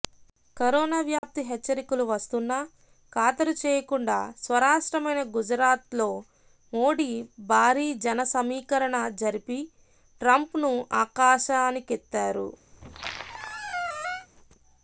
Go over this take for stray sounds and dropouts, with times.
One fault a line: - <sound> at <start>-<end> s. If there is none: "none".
- dropout at 1.2-1.2 s
- squeak at 12.7-14.3 s